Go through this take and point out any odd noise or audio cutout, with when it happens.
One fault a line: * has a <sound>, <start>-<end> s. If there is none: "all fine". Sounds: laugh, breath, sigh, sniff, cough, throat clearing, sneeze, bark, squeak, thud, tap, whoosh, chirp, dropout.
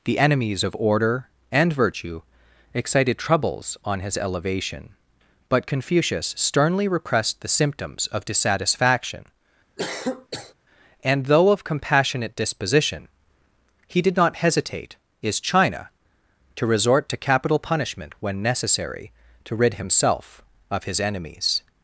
* has a cough, 9.8-10.5 s